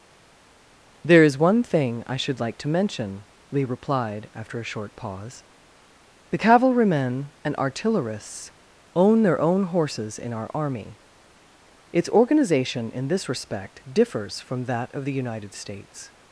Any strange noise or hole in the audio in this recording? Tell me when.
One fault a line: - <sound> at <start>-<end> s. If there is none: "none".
none